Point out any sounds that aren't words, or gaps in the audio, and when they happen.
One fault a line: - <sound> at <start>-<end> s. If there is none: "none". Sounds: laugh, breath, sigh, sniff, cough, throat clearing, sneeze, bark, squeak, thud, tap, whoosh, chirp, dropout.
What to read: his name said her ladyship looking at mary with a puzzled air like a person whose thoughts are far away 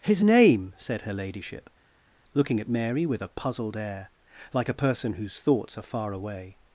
none